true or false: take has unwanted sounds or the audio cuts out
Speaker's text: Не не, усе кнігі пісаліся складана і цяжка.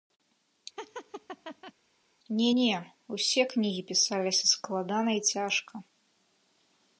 true